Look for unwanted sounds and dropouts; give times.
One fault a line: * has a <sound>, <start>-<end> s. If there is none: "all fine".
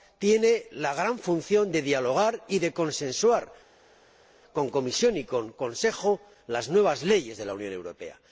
all fine